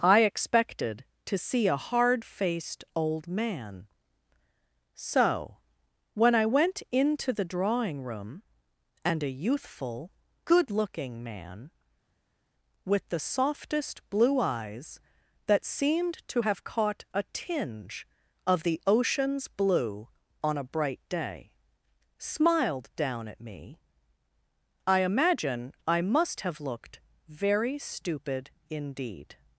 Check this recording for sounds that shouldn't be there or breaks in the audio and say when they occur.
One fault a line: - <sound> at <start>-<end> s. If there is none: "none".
none